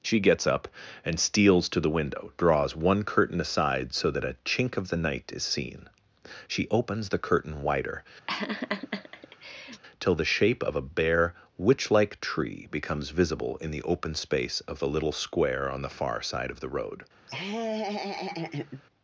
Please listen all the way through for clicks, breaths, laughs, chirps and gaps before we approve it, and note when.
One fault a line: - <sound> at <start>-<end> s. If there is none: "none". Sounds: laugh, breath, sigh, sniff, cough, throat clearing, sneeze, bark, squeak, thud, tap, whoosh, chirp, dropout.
- laugh at 8.3-9.8 s
- laugh at 17.3-18.8 s